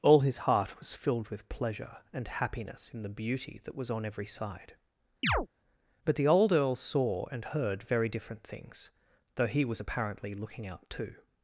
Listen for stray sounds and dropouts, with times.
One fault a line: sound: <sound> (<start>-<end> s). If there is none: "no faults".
sound: chirp (5.2-5.5 s)